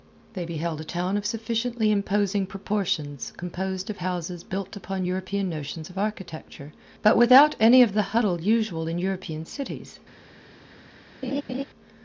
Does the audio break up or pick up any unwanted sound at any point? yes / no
yes